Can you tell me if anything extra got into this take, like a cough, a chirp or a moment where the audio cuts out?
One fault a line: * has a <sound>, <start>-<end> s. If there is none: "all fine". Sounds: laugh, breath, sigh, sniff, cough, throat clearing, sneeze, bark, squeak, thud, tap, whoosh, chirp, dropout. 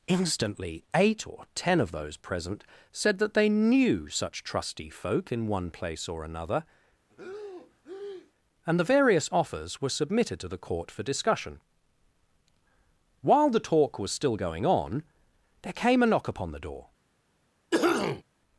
* has a breath, 7.1-8.3 s
* has a cough, 17.7-18.2 s